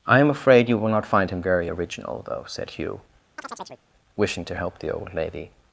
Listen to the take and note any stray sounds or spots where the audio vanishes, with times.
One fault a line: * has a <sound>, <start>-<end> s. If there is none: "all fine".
* has a chirp, 3.4-3.8 s